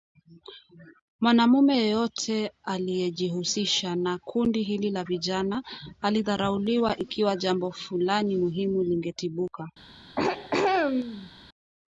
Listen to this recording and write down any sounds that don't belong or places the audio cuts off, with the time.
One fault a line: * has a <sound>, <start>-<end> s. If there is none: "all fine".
* has a throat clearing, 10.2-11.3 s